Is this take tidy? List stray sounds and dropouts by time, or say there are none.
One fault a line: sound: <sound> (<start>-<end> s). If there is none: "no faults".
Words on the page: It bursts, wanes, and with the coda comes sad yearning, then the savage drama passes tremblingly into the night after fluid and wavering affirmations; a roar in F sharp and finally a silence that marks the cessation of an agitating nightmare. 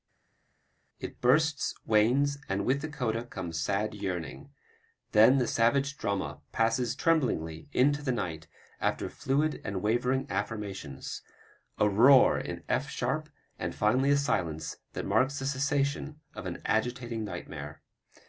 no faults